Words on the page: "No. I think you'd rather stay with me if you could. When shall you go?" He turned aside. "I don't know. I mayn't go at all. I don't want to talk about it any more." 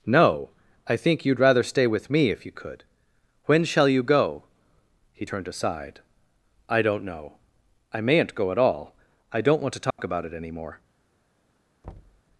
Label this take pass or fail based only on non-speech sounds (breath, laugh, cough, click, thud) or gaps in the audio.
fail